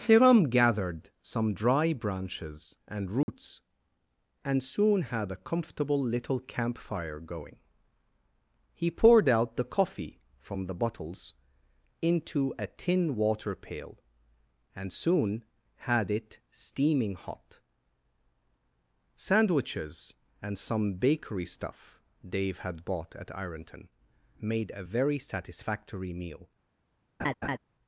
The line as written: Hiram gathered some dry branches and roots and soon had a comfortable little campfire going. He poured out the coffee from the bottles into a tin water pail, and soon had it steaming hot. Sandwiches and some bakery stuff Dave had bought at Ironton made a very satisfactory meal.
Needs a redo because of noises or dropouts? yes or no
yes